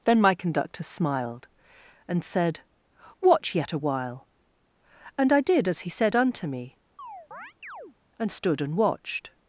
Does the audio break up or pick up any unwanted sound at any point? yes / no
yes